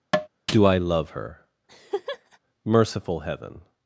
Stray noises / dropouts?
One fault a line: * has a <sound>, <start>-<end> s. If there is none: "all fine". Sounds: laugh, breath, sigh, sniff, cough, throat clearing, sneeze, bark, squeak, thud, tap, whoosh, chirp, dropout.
* has a tap, 0.1-0.3 s
* has a laugh, 1.7-2.4 s